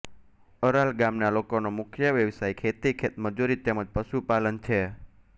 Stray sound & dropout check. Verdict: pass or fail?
pass